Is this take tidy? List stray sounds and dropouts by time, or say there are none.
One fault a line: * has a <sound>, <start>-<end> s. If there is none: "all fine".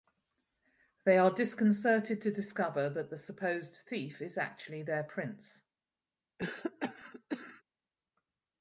* has a cough, 6.4-7.6 s